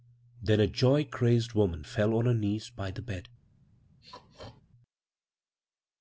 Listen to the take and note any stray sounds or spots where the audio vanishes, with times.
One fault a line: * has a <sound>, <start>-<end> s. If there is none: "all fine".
* has a throat clearing, 4.0-4.6 s